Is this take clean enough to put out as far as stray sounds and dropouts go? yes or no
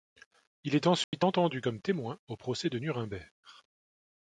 no